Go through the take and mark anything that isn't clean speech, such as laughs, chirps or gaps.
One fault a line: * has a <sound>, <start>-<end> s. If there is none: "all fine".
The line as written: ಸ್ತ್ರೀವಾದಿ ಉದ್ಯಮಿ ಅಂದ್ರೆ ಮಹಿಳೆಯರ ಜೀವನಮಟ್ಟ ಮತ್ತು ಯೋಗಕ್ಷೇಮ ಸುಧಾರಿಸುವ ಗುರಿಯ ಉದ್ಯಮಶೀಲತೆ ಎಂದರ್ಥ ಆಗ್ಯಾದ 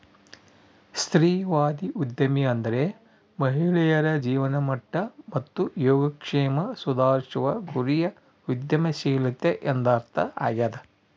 all fine